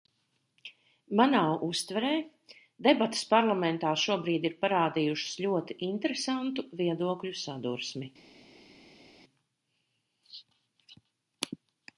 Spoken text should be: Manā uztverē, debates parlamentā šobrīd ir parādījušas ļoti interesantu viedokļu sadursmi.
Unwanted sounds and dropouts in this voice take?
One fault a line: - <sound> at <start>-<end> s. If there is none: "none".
none